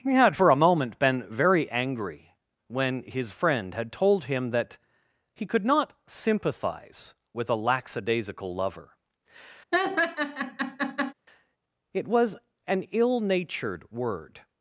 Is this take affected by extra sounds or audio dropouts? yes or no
yes